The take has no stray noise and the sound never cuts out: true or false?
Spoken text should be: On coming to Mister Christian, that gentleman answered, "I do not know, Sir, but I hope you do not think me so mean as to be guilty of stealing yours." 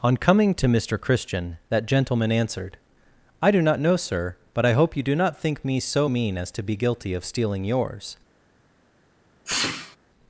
false